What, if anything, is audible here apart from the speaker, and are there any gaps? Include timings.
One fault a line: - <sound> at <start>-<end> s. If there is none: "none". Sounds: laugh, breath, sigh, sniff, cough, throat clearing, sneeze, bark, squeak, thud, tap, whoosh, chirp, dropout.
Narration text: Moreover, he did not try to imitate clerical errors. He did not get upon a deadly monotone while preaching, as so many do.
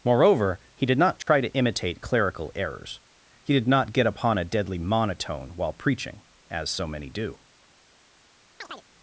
- dropout at 1.2-1.3 s
- chirp at 8.6-8.9 s